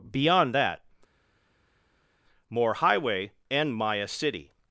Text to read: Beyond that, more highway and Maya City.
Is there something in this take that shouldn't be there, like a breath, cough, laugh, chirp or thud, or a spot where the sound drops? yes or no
no